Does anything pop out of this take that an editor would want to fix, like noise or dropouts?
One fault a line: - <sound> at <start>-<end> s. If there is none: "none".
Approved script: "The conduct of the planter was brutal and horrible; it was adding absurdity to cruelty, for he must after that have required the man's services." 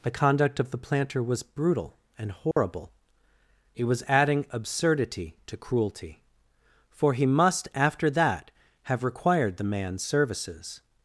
- dropout at 2.5-2.6 s